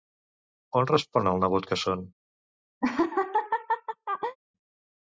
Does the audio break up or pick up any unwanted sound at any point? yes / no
yes